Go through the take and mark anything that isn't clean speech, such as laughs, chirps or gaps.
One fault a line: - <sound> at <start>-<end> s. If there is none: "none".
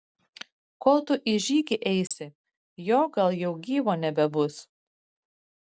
- dropout at 2.1-2.1 s